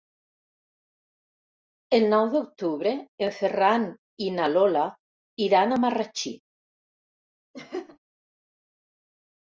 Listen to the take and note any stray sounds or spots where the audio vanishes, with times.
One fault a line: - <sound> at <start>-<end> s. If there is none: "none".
- laugh at 7.5-8.0 s